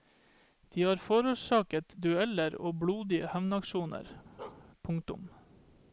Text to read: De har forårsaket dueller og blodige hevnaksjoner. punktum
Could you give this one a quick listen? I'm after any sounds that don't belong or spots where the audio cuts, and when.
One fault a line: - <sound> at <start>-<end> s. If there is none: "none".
- bark at 4.4-4.7 s